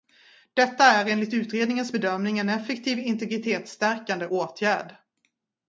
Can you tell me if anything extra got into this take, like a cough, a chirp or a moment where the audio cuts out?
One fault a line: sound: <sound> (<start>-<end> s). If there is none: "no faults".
no faults